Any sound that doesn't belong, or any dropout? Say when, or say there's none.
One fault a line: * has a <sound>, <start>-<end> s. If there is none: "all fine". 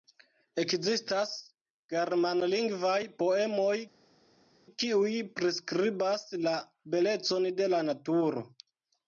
all fine